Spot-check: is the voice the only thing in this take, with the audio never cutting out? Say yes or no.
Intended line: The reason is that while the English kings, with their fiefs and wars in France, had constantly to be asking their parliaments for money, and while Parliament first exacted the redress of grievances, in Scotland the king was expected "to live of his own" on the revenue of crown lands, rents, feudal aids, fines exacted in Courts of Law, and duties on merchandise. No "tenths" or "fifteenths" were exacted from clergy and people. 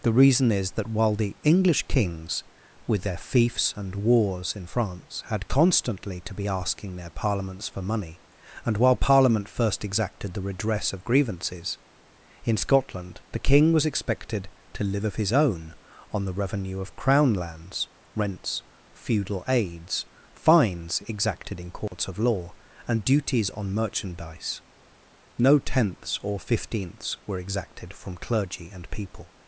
no